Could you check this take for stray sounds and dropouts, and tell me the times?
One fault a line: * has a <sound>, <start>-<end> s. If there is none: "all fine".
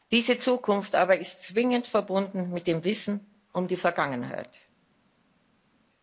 all fine